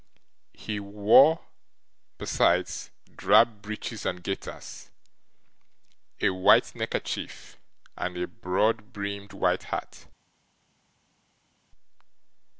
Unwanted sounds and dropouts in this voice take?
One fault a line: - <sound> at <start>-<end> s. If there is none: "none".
none